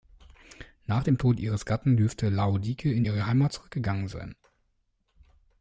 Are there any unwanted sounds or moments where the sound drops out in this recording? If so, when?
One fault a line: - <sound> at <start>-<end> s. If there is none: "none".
none